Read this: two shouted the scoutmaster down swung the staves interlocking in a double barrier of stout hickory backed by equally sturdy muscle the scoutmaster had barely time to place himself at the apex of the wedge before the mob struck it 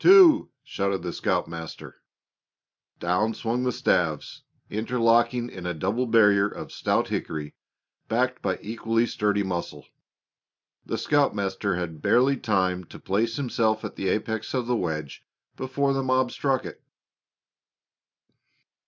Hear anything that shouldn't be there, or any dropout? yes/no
no